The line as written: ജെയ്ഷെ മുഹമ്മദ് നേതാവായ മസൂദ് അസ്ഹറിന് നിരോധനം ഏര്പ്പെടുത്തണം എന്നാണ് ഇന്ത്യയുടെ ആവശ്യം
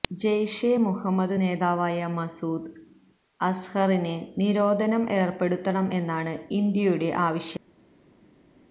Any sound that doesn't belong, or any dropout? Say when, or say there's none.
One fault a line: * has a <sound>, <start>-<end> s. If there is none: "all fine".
all fine